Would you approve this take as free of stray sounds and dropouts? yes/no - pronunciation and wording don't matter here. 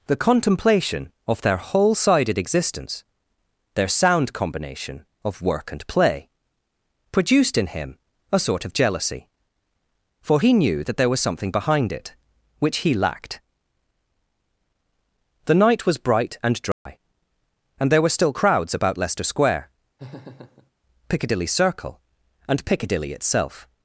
no